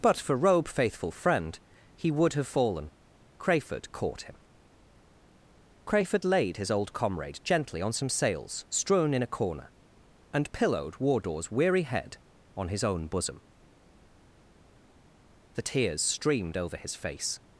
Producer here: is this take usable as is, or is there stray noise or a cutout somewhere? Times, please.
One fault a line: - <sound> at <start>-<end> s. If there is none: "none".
none